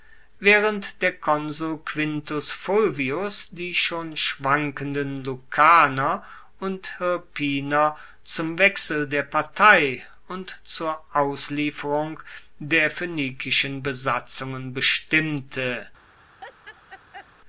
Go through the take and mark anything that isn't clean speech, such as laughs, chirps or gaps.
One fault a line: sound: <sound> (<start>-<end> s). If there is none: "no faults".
sound: laugh (16.4-17.3 s)